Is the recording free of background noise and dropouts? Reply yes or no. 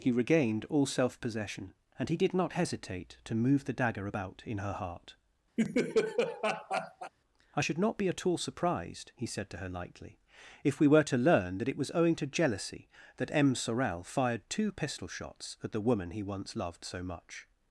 no